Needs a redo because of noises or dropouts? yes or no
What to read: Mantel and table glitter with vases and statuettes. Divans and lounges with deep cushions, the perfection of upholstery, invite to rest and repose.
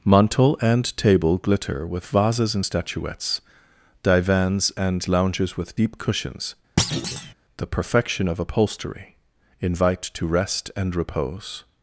yes